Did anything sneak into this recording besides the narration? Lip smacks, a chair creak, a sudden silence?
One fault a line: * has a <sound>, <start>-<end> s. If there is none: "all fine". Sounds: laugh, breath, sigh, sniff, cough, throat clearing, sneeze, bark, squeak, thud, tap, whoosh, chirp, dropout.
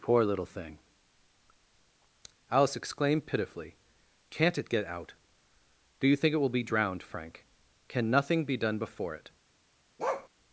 * has a bark, 10.0-10.3 s